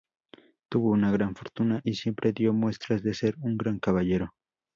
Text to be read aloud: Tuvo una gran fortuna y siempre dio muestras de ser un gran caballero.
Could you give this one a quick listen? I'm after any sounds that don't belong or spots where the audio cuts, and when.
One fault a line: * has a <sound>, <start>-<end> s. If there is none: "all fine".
all fine